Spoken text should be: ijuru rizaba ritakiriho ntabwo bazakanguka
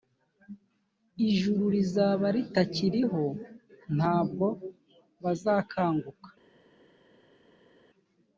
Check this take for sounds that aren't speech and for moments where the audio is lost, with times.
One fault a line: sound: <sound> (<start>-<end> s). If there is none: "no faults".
no faults